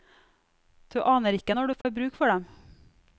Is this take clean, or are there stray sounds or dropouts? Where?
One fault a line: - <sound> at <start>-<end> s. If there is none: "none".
- dropout at 1.8-1.8 s